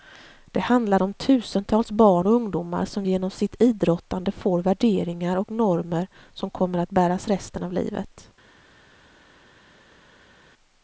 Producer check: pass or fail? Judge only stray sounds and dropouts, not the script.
pass